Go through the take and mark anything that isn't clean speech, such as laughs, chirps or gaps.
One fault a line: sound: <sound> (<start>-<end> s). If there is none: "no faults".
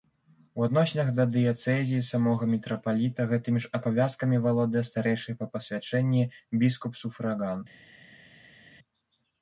no faults